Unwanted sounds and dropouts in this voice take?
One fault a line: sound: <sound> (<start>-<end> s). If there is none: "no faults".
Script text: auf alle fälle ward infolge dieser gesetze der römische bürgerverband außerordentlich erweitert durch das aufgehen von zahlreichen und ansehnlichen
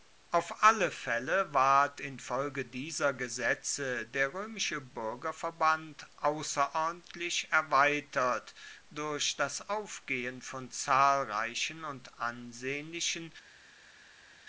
no faults